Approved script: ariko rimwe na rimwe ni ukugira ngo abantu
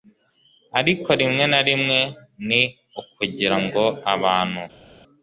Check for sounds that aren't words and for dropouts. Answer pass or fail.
pass